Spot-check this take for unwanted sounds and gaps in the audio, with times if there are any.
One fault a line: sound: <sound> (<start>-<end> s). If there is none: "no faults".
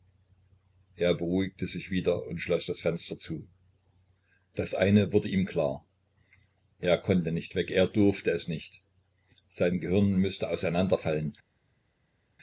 no faults